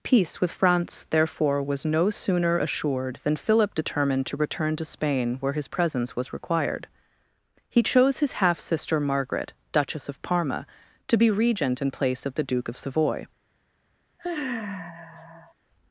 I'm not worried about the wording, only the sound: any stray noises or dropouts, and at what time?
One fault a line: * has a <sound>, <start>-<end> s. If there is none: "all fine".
* has a sigh, 14.2-15.5 s